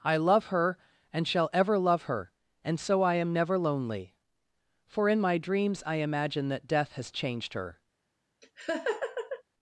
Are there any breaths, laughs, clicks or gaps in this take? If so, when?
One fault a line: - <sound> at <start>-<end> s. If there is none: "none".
- laugh at 8.4-9.4 s